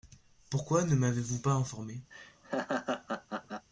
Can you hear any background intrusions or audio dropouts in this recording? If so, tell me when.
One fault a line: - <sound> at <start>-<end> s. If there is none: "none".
- laugh at 2.1-3.7 s